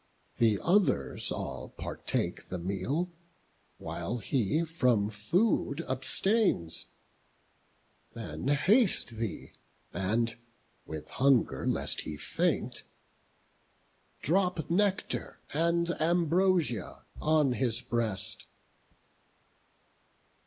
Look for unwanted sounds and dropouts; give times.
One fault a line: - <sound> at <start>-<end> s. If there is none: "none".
none